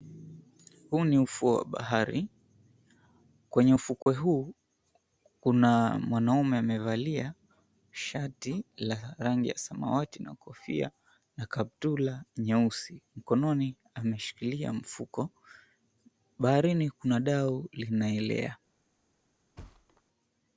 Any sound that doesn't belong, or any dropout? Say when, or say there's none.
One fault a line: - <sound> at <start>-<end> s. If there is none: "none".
- dropout at 4.0-4.1 s
- thud at 19.6-20.0 s